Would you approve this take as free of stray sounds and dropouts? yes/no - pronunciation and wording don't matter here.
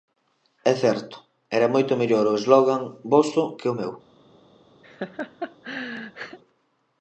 no